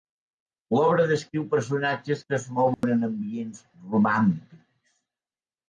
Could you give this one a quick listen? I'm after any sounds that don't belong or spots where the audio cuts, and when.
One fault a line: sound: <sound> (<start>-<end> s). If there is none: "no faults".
sound: dropout (2.7-2.8 s)